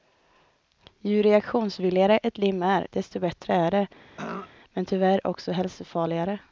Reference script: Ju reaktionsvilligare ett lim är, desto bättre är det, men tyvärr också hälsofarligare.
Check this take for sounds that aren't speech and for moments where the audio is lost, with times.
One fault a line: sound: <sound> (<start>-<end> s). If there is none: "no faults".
sound: throat clearing (4.2-4.5 s)